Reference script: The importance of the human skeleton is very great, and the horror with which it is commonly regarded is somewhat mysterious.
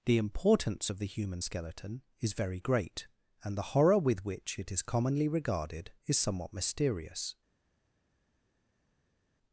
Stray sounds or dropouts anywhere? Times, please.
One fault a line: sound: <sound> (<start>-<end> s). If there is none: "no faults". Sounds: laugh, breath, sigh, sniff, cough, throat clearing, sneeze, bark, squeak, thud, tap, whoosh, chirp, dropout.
no faults